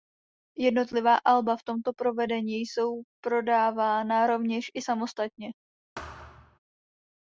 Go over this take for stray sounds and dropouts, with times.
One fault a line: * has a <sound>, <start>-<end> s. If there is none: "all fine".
* has a thud, 6.0-6.6 s